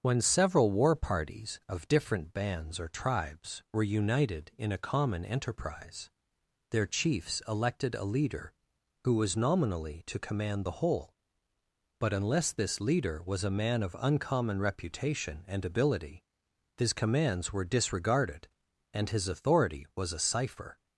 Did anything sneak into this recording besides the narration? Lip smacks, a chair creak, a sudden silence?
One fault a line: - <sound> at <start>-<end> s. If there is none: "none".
none